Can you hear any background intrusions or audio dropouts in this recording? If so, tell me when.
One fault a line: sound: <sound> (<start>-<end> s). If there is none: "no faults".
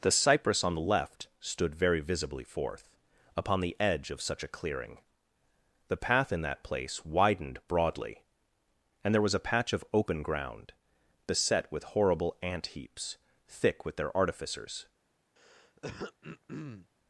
sound: throat clearing (15.4-16.9 s)